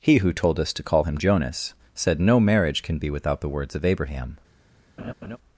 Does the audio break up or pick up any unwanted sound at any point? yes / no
yes